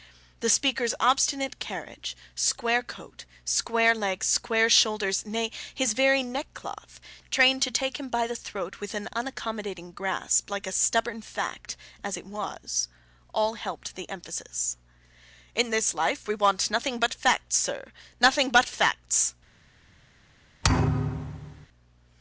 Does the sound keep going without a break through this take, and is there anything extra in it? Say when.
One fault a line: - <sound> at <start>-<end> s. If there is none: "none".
- thud at 20.6-21.7 s